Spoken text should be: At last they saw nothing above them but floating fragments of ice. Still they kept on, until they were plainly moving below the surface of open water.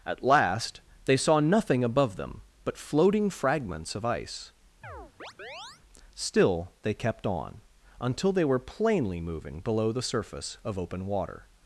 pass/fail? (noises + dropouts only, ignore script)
fail